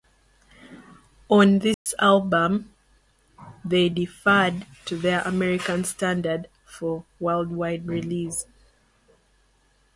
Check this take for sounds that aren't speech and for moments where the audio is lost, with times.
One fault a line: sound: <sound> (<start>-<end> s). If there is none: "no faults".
sound: dropout (1.7-1.9 s)